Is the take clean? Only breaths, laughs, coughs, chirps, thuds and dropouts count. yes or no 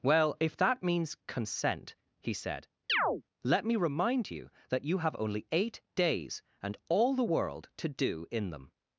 no